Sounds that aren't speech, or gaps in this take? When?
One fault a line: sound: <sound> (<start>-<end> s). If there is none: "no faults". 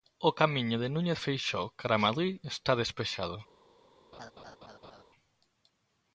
sound: laugh (4.1-5.0 s)